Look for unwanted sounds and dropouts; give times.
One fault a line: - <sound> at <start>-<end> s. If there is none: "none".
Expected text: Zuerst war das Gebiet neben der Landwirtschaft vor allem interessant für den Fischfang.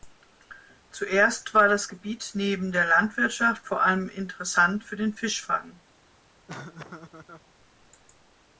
- laugh at 6.5-7.5 s